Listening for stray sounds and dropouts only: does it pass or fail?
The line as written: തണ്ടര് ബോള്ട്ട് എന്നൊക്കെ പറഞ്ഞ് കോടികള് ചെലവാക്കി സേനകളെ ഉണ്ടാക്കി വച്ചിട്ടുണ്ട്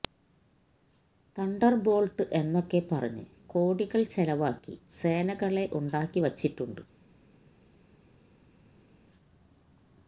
pass